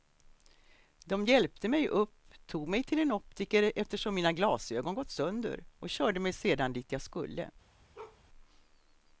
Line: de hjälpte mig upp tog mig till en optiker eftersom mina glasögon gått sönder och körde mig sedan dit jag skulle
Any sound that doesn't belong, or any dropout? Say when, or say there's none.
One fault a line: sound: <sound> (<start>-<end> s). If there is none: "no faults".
sound: bark (7.9-8.2 s)